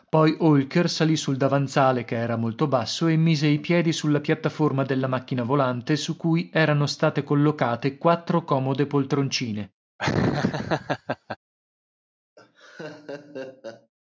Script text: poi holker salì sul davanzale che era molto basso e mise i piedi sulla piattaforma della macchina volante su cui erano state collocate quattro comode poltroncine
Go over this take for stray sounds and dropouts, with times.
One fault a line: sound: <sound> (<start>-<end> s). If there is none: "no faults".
sound: laugh (10.0-11.4 s)
sound: laugh (12.4-13.9 s)